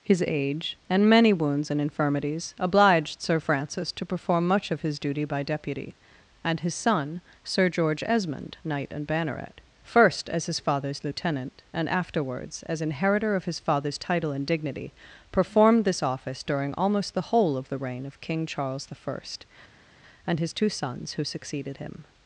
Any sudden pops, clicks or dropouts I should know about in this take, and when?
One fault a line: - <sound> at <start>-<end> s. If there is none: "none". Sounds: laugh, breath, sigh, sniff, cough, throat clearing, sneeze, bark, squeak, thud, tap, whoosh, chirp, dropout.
none